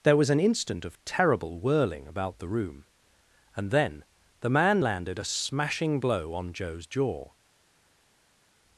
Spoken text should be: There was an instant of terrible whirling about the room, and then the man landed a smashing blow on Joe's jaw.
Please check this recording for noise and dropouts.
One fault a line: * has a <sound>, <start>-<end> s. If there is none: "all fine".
all fine